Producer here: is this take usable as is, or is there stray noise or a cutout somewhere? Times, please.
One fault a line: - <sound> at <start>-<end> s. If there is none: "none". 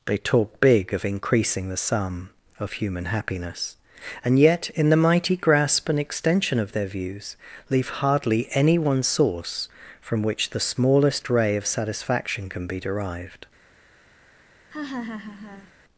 - laugh at 14.7-15.7 s